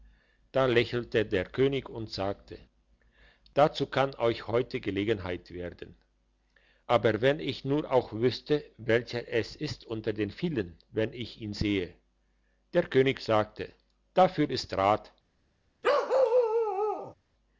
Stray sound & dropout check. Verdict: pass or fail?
fail